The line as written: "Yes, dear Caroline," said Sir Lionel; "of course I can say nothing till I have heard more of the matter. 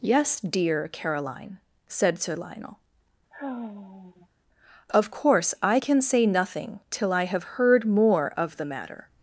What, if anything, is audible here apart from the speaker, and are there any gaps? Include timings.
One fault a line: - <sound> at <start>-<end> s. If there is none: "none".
- sigh at 3.3-4.3 s